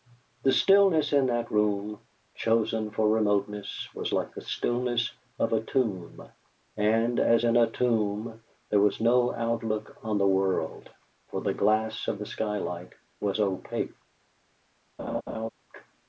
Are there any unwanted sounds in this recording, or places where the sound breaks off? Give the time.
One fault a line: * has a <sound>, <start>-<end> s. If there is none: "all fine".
* has a laugh, 15.0-15.5 s